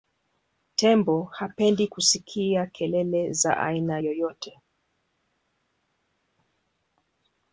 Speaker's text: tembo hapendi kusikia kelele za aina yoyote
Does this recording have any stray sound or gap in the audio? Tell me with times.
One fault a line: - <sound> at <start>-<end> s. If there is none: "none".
none